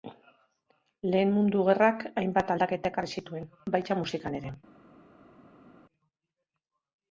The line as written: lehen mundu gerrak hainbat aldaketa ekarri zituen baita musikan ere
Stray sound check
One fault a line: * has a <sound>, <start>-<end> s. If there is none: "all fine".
all fine